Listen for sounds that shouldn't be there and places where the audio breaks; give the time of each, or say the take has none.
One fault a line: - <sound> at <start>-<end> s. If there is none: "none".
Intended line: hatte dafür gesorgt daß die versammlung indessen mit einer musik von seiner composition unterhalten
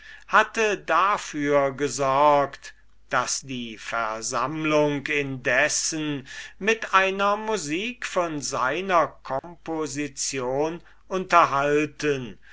- dropout at 9.4-9.4 s